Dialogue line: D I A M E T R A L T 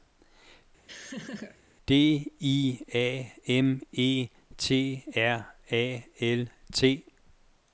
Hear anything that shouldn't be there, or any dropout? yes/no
yes